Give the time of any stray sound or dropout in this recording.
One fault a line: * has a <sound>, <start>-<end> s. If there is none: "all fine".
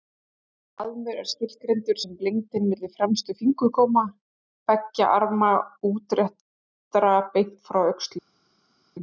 all fine